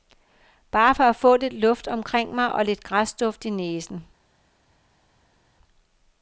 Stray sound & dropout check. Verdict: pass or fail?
pass